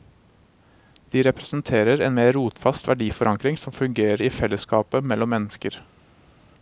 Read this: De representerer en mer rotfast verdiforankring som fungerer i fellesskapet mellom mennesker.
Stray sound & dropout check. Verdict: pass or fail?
pass